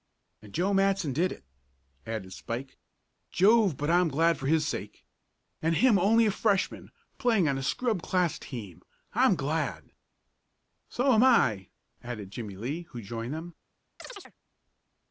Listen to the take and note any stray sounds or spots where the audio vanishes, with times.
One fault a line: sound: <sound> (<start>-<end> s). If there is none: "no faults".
sound: chirp (14.0-14.3 s)